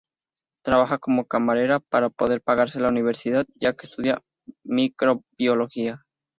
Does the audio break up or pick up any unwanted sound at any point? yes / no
no